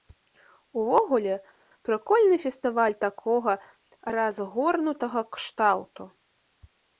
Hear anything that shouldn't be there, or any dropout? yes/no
no